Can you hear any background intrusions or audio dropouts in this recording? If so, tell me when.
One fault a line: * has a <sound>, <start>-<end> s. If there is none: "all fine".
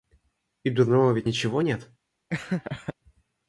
* has a laugh, 2.3-2.9 s